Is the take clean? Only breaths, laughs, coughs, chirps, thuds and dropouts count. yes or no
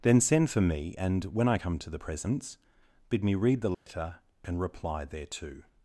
no